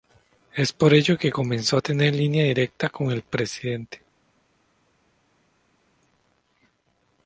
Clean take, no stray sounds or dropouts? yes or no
yes